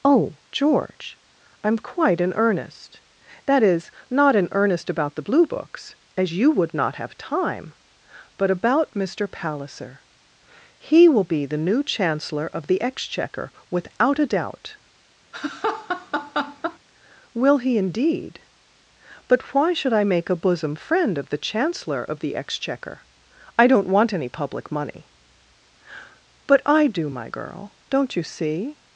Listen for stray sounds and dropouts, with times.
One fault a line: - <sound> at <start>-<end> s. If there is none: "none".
- laugh at 15.3-16.8 s